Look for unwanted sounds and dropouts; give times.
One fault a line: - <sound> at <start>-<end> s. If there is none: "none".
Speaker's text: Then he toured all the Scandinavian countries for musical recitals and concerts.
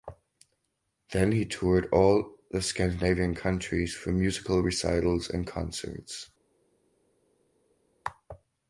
none